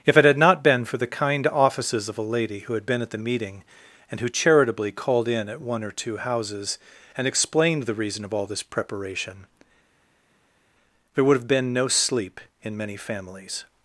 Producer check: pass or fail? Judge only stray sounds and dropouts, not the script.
pass